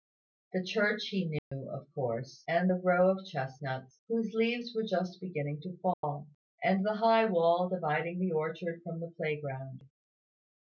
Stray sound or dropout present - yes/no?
yes